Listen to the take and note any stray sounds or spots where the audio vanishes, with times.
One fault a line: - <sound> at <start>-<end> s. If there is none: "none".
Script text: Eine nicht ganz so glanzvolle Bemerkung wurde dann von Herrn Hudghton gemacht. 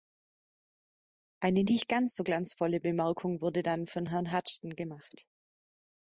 none